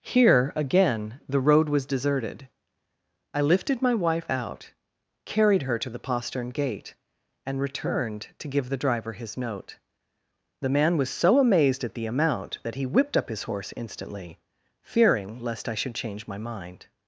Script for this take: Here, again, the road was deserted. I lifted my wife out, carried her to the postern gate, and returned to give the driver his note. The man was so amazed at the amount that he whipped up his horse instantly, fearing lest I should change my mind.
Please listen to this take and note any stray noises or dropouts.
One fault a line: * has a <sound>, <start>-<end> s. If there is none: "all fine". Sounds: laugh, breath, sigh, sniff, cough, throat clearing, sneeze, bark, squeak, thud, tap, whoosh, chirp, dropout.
all fine